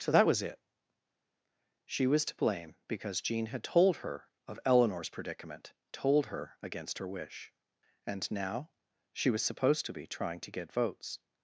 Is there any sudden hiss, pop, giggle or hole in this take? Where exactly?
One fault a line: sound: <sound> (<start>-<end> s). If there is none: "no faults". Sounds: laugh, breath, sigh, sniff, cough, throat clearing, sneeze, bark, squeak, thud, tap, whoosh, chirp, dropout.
no faults